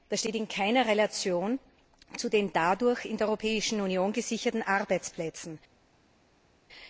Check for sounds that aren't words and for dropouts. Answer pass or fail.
pass